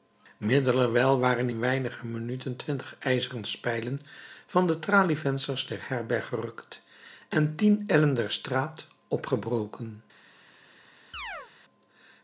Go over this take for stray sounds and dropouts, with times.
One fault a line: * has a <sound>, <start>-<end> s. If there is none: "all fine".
* has a chirp, 11.1-11.5 s